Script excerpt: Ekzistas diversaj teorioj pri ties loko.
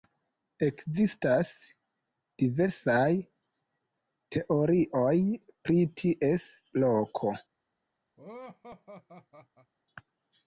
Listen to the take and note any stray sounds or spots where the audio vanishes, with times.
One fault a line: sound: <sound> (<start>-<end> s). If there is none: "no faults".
sound: laugh (8.2-9.7 s)